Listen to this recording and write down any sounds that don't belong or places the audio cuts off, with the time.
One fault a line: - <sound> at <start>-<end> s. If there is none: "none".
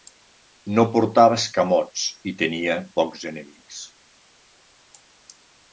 none